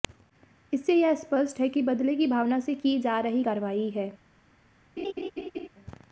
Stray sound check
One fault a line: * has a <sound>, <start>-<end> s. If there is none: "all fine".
* has a laugh, 5.0-5.7 s